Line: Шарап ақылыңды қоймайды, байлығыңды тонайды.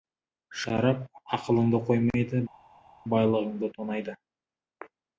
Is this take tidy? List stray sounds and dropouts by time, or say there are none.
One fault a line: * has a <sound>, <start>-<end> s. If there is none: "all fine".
all fine